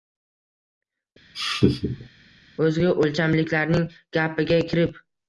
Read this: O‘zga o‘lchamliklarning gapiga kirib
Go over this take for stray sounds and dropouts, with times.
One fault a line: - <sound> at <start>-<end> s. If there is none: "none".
- laugh at 1.3-2.1 s